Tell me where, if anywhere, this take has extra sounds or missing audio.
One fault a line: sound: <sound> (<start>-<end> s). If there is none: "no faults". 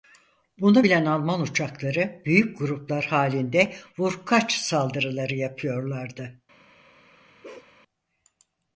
sound: bark (7.4-7.7 s)